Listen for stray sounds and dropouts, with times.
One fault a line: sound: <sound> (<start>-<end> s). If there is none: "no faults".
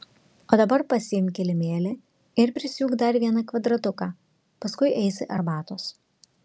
no faults